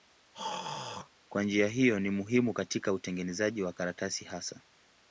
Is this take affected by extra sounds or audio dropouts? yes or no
yes